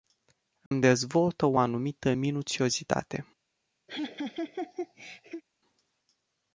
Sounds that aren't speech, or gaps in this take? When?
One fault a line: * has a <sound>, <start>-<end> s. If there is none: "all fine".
* has a dropout, 0.7-0.7 s
* has a laugh, 3.9-5.4 s